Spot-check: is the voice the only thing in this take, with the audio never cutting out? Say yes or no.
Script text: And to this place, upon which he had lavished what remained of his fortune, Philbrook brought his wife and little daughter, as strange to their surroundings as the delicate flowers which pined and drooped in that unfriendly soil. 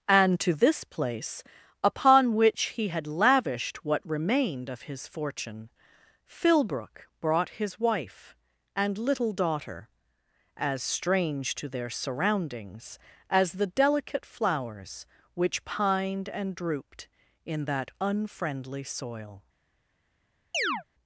no